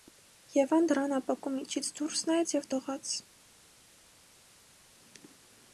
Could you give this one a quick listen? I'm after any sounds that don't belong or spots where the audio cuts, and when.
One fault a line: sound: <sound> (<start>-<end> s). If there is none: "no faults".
no faults